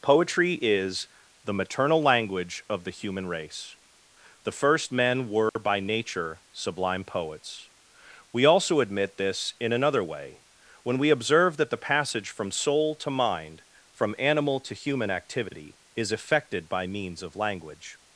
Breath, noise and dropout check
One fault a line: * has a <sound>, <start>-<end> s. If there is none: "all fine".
* has a dropout, 5.5-5.6 s